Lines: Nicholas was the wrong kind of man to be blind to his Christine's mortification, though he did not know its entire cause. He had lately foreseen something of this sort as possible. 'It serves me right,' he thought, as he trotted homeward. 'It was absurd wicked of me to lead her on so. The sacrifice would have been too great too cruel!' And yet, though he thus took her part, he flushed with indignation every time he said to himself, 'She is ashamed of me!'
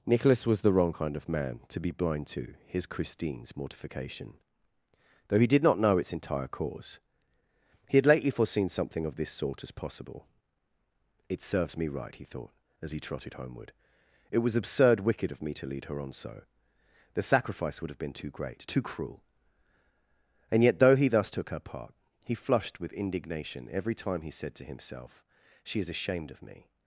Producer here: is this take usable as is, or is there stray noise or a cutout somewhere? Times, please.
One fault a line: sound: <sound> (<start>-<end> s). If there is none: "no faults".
no faults